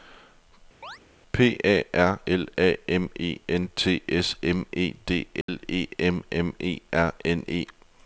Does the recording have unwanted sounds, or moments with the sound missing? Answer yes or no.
yes